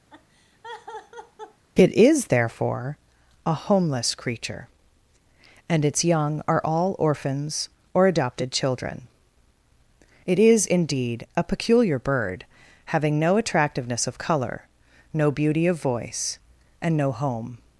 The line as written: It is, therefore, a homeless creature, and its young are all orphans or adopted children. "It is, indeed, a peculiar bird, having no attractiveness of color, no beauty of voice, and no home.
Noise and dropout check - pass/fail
fail